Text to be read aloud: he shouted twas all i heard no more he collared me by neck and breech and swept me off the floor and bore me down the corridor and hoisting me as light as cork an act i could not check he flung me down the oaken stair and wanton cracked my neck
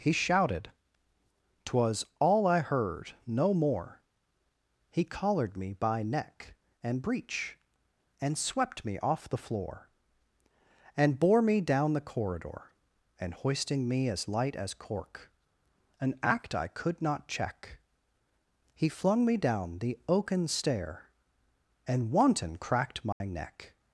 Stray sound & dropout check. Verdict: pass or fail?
fail